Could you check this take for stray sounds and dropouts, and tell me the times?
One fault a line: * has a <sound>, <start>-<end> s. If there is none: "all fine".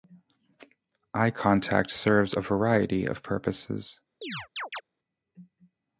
* has a chirp, 4.2-4.8 s